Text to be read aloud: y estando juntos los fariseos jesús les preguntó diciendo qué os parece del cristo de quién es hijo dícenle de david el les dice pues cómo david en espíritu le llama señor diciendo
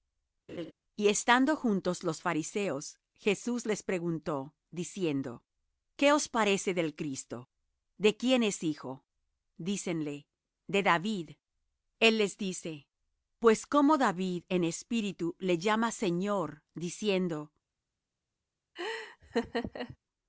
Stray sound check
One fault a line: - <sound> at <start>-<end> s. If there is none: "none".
- laugh at 0.5-0.7 s
- laugh at 18.8-20.0 s